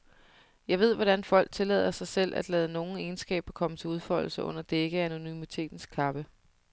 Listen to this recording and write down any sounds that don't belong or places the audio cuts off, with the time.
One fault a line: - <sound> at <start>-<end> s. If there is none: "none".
none